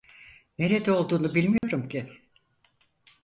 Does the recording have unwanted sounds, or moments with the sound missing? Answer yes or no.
yes